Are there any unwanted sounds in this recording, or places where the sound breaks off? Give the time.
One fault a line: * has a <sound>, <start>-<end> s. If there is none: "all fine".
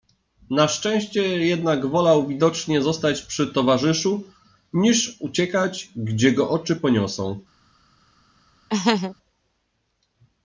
* has a laugh, 8.7-9.2 s